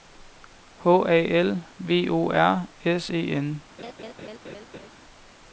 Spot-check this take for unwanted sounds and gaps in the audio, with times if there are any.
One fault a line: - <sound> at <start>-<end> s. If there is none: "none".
- laugh at 3.8-4.9 s